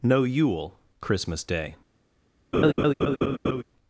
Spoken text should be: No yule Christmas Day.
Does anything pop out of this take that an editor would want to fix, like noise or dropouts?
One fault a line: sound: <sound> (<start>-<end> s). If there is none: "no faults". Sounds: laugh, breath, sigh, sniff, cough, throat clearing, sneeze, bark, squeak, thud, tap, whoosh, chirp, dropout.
sound: laugh (2.5-3.6 s)